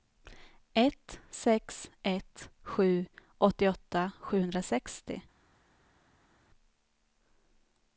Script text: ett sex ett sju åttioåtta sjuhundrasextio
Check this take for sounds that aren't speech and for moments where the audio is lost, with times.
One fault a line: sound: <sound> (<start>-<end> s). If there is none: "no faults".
no faults